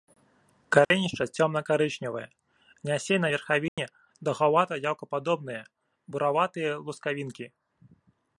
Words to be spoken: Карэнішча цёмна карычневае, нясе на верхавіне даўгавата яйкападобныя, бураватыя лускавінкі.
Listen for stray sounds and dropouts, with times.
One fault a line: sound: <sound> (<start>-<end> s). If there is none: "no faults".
sound: dropout (0.8-0.9 s)
sound: dropout (3.7-3.8 s)